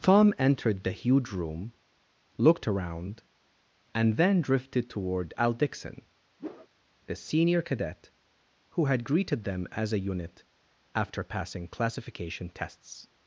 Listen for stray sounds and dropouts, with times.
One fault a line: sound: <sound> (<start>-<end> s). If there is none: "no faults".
sound: whoosh (6.4-6.7 s)